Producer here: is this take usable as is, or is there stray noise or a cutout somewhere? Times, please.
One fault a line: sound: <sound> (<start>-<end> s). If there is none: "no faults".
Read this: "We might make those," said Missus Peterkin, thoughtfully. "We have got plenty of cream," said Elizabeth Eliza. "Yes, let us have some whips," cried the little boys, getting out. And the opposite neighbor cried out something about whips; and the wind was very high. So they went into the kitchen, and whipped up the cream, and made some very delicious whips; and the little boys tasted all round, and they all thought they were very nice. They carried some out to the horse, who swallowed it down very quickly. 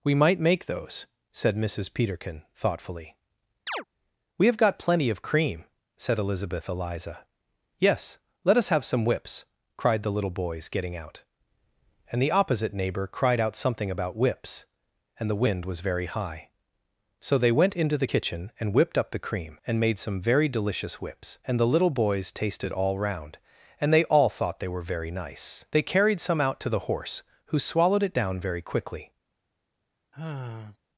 sound: chirp (3.7-3.8 s)
sound: sigh (30.1-30.8 s)